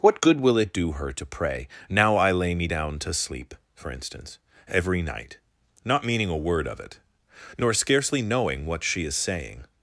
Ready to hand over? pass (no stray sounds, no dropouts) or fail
pass